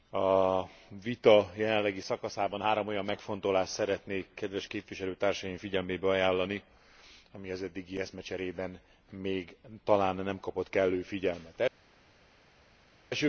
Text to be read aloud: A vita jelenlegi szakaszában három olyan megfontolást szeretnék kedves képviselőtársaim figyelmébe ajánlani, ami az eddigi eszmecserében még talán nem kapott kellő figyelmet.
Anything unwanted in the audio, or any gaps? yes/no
no